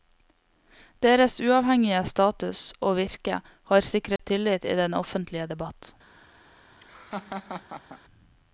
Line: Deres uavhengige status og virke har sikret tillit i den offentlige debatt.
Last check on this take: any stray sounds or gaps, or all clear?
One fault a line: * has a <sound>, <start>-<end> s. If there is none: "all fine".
* has a dropout, 4.2-4.2 s
* has a laugh, 6.8-8.0 s